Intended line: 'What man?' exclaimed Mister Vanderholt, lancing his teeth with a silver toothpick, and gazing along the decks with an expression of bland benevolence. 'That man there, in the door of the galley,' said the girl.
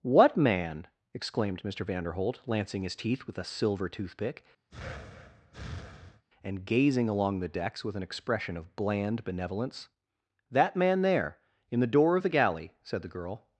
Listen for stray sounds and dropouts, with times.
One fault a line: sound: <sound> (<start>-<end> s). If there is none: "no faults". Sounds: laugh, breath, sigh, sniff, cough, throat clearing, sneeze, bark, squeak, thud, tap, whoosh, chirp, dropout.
sound: breath (4.7-6.2 s)